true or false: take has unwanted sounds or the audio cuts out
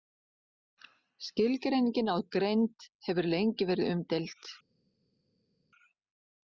false